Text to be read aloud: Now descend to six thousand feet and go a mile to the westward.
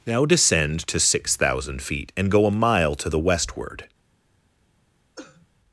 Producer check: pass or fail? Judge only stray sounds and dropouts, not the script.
fail